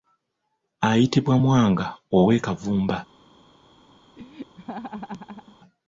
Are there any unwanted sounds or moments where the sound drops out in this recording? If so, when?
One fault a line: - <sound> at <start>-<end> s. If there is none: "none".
- laugh at 4.2-5.6 s